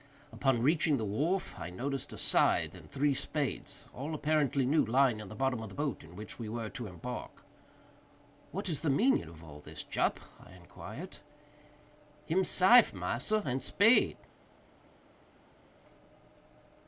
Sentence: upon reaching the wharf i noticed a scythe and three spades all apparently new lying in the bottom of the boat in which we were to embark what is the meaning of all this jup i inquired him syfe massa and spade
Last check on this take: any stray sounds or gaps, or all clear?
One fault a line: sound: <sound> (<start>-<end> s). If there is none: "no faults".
no faults